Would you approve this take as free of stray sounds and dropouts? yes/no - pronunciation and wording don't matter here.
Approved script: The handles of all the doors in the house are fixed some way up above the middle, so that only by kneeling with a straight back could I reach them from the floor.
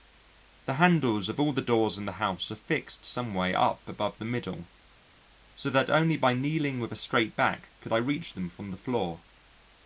yes